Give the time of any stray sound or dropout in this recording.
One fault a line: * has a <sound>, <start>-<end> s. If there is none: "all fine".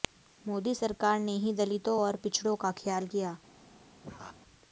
* has a laugh, 4.0-4.4 s